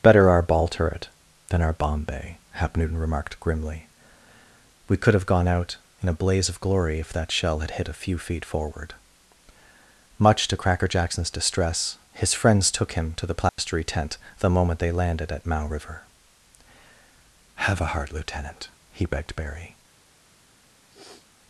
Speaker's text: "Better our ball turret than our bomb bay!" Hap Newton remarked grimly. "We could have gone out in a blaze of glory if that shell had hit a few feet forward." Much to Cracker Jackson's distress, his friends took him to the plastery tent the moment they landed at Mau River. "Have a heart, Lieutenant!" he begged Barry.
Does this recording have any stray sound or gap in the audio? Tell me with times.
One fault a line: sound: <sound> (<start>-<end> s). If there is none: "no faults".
sound: dropout (13.5-13.6 s)
sound: sniff (20.9-21.3 s)